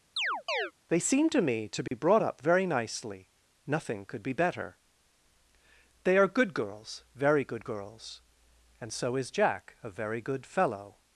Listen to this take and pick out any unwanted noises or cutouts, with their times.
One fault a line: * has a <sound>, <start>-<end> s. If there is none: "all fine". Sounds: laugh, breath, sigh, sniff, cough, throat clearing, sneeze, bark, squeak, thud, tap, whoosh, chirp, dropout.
* has a chirp, 0.2-0.7 s
* has a dropout, 1.9-1.9 s